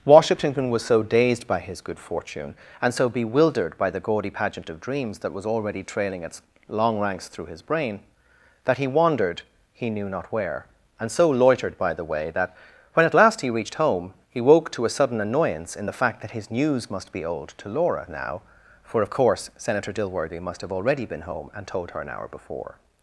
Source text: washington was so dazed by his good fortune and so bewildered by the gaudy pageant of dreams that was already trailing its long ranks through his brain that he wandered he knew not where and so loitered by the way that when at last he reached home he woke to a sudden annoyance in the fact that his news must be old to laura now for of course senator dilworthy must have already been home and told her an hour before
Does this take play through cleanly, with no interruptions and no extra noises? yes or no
yes